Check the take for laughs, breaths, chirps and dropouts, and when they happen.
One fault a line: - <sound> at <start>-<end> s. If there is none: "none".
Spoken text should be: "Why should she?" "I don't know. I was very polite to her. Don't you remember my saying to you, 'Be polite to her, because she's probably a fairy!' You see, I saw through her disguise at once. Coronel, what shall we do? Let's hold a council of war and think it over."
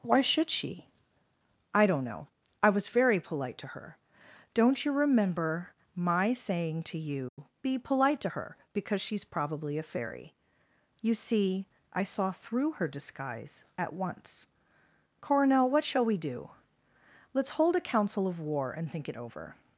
- dropout at 7.3-7.4 s